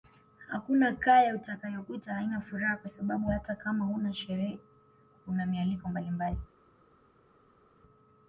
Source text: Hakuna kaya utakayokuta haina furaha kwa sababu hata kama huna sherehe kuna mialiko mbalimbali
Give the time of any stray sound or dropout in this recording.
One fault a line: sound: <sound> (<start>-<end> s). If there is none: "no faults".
no faults